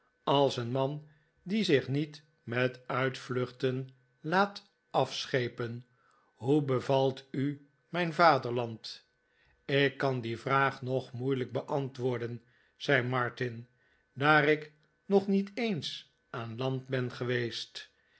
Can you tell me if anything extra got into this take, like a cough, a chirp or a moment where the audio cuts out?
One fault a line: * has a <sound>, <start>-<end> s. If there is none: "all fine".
all fine